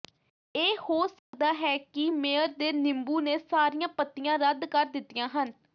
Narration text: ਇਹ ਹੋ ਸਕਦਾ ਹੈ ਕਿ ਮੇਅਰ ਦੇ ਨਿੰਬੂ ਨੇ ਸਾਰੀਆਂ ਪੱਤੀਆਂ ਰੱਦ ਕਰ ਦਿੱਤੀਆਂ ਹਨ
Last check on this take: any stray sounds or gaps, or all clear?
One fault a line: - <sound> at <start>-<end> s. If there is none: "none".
- dropout at 1.2-1.3 s